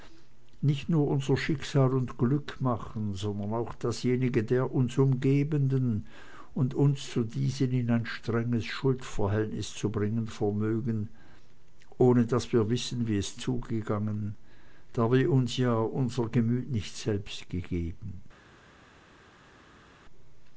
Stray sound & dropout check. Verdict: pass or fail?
pass